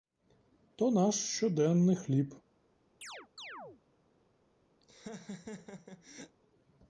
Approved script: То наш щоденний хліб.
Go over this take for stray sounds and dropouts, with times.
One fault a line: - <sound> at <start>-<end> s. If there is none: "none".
- chirp at 3.0-3.8 s
- laugh at 4.8-6.4 s